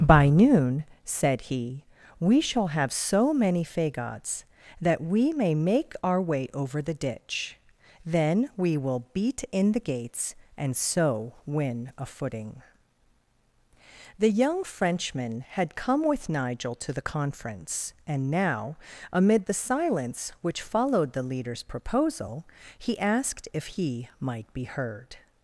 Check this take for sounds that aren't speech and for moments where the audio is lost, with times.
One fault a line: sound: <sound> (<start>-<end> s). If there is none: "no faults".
no faults